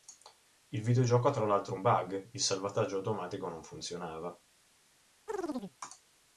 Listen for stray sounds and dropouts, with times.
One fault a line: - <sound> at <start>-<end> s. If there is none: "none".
- chirp at 5.3-5.8 s